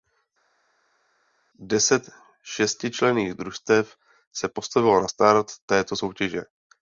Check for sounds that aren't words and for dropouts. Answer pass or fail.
pass